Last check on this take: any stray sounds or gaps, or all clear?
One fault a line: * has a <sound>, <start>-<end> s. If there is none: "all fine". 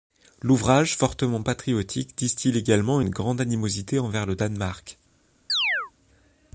* has a chirp, 5.5-5.9 s